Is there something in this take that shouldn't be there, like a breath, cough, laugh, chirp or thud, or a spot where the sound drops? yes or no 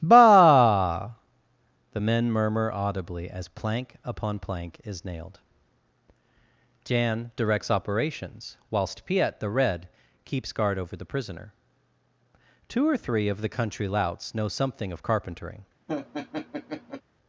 yes